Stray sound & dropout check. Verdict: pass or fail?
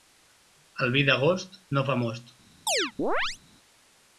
fail